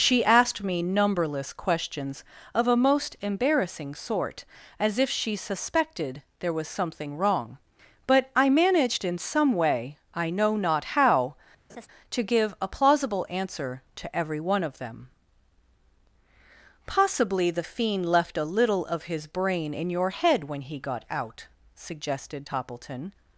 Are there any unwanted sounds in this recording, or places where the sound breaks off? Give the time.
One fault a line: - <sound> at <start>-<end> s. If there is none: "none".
- laugh at 11.7-11.9 s